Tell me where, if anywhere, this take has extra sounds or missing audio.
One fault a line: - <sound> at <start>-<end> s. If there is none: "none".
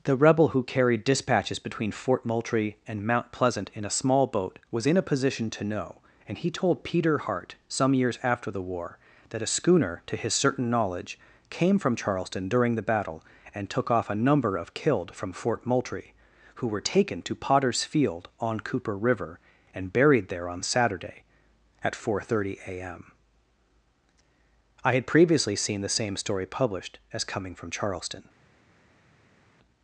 none